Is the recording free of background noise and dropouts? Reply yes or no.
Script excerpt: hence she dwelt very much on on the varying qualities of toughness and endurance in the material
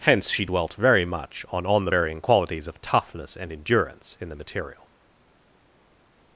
yes